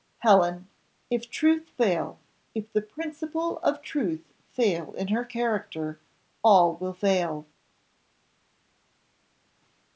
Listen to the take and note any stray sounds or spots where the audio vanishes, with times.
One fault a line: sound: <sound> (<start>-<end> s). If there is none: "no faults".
no faults